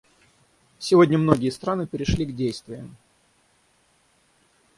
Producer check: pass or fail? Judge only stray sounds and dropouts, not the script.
pass